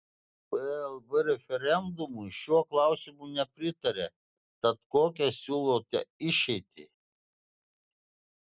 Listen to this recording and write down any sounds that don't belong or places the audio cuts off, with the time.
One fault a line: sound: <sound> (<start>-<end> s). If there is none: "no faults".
no faults